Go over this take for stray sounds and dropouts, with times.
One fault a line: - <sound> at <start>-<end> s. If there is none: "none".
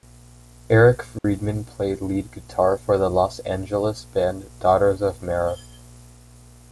- dropout at 1.2-1.2 s